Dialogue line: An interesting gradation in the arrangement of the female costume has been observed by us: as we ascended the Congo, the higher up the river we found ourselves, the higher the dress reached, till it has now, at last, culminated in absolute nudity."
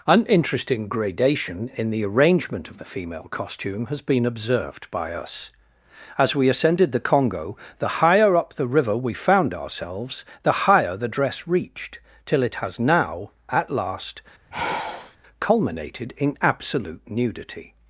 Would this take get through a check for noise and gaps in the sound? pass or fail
fail